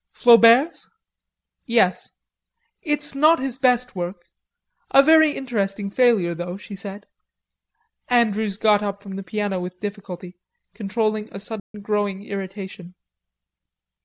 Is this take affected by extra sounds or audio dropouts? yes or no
yes